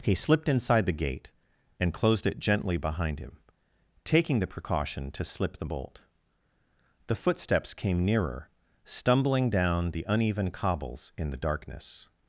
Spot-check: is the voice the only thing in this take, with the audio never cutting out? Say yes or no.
yes